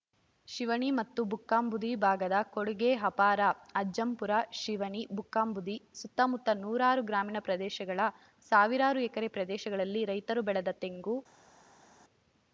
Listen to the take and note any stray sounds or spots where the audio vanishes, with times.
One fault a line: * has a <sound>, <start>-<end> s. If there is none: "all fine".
all fine